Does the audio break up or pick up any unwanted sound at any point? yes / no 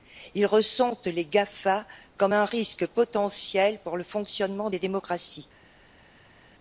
no